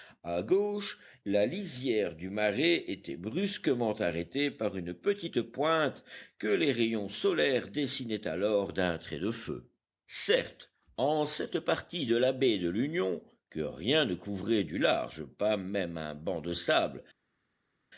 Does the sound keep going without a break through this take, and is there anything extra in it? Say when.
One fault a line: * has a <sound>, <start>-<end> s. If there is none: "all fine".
all fine